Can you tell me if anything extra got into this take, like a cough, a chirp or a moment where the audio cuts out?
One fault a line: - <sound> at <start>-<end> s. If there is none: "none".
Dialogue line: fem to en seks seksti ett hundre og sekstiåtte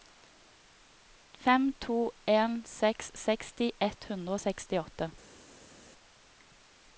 none